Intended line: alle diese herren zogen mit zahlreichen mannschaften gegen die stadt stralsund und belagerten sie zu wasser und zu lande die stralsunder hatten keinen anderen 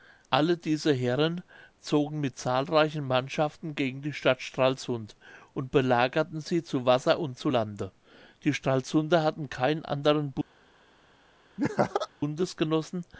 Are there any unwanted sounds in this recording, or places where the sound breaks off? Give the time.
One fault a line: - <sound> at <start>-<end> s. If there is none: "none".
- laugh at 11.6-12.1 s